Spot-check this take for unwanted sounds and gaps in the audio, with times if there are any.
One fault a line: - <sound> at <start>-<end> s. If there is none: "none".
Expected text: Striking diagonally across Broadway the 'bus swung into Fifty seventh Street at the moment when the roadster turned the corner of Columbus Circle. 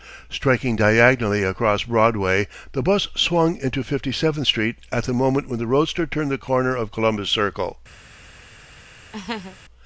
- laugh at 9.1-9.6 s